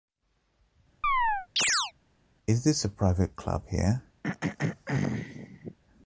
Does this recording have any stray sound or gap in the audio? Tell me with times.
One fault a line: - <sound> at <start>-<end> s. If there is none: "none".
- chirp at 1.0-1.9 s
- throat clearing at 4.2-5.8 s